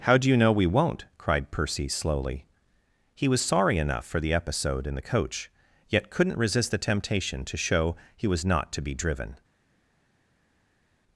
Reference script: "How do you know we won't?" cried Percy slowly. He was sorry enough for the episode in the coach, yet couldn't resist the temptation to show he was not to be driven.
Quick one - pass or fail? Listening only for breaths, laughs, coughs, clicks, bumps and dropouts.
pass